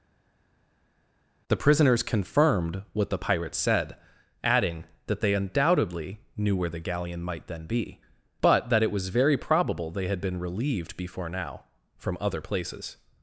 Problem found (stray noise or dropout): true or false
false